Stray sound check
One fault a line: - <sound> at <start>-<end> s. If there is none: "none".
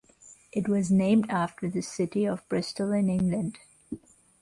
none